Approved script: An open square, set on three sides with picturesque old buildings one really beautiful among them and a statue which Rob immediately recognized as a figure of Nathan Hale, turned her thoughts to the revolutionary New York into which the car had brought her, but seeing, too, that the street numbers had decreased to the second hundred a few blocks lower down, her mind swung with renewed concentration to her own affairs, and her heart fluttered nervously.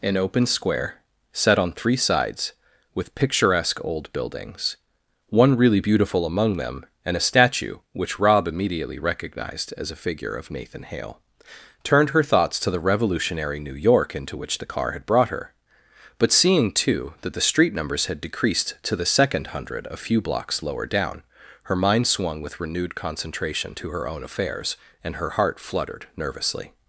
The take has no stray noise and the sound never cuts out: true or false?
true